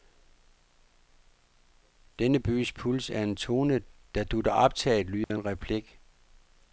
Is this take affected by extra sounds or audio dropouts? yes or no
yes